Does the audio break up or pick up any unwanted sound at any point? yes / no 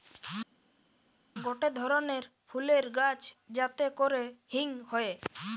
no